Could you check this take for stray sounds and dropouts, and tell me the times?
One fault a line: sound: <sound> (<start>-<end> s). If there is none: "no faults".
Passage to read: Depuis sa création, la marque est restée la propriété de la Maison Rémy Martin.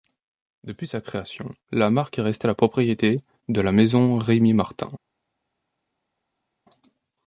no faults